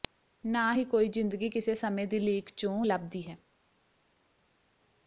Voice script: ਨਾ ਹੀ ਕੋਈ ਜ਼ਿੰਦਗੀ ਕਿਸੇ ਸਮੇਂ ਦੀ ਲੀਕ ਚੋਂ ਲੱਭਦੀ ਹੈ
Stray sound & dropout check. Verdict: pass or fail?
pass